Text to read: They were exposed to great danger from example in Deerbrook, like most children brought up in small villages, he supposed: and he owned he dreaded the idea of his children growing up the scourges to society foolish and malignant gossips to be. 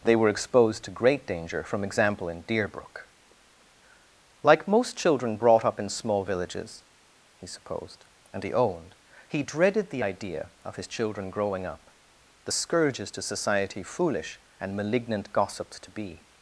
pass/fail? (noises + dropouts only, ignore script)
pass